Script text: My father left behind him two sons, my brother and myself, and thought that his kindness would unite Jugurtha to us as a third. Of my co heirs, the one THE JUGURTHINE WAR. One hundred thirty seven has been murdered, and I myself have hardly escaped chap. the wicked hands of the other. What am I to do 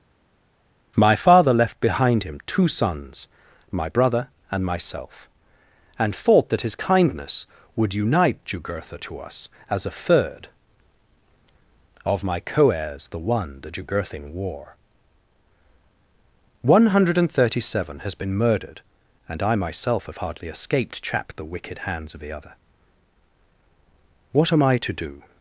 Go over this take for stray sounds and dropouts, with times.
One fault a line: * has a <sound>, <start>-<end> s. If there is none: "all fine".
all fine